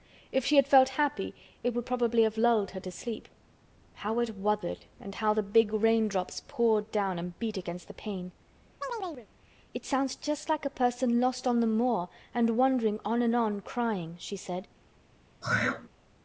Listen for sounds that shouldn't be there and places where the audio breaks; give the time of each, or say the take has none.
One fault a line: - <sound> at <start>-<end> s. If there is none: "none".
- chirp at 8.8-9.3 s
- throat clearing at 15.4-15.9 s